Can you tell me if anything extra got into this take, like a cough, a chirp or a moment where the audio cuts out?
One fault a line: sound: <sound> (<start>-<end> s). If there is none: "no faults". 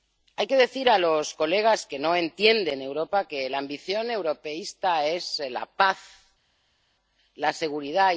no faults